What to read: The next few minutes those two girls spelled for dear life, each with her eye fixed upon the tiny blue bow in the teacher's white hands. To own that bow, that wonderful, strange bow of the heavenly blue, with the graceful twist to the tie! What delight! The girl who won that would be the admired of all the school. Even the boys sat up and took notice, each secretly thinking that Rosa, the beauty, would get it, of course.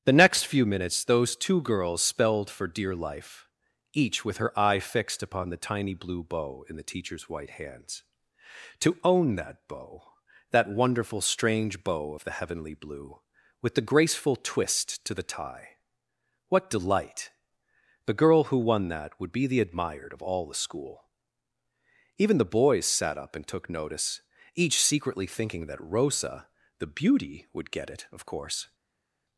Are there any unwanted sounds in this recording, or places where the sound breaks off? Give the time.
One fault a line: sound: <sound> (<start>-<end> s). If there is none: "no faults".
no faults